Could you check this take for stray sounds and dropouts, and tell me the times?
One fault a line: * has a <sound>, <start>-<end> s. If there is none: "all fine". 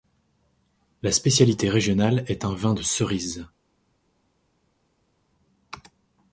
all fine